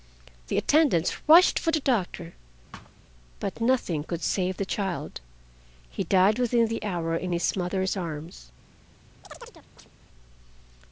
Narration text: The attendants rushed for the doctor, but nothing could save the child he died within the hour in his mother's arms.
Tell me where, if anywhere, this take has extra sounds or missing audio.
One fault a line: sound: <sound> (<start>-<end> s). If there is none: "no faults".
sound: thud (2.7-3.0 s)
sound: chirp (9.2-9.9 s)